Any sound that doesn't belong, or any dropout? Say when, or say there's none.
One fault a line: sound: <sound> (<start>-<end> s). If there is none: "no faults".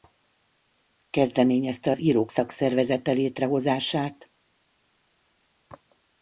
no faults